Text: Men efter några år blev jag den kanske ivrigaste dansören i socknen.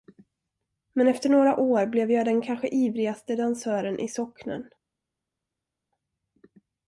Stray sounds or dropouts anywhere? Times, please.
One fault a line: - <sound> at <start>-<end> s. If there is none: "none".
none